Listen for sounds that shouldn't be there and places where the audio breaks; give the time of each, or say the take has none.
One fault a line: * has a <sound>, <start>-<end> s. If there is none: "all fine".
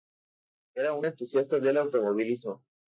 all fine